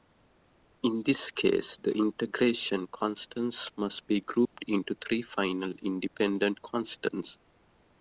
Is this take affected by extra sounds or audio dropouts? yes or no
yes